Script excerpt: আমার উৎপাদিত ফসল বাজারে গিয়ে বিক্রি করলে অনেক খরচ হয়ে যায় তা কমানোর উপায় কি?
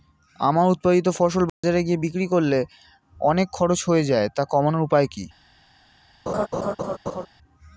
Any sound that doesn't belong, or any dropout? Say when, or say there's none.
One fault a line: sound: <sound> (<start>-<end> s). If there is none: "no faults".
sound: dropout (1.5-1.6 s)
sound: laugh (6.3-7.3 s)